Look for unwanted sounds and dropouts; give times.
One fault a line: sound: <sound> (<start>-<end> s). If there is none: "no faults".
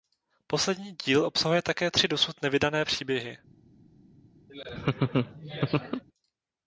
sound: laugh (4.5-6.0 s)